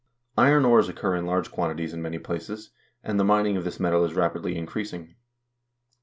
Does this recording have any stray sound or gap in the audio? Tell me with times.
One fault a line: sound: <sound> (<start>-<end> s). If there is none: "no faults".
no faults